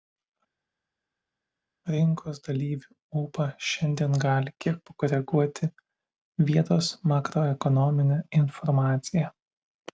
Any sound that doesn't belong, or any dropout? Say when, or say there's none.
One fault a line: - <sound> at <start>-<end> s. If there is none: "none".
none